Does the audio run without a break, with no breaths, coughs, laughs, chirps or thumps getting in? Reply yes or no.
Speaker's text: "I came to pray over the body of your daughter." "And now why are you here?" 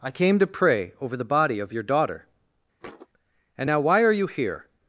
no